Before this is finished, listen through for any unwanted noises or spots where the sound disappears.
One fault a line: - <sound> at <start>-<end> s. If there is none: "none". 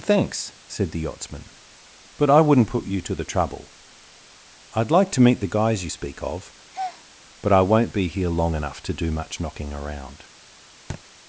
- breath at 6.7-7.1 s
- thud at 10.9-11.0 s